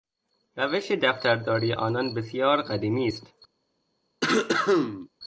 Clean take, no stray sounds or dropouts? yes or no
no